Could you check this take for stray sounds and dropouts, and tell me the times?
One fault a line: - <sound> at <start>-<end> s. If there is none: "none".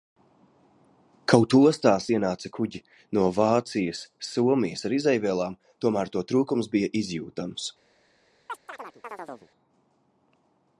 - chirp at 8.5-9.5 s